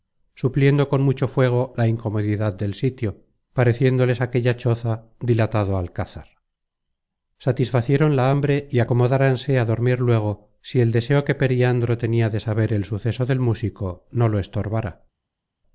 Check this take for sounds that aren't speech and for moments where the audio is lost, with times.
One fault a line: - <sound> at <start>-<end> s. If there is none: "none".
none